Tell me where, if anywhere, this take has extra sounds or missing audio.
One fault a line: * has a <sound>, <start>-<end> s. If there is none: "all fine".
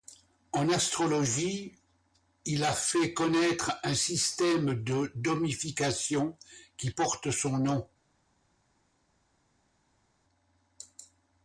all fine